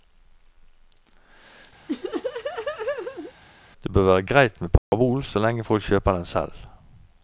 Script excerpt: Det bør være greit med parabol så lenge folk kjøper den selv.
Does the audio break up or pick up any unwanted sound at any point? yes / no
yes